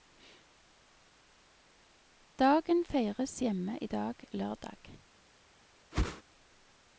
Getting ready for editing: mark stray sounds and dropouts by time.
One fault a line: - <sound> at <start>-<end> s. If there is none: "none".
- whoosh at 5.9-6.2 s